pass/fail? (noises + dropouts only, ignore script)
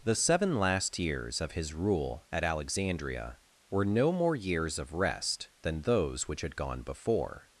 pass